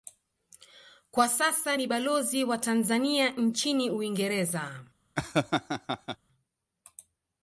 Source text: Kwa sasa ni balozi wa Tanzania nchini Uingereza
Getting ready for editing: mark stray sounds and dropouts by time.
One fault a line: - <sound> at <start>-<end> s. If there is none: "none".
- laugh at 5.2-6.2 s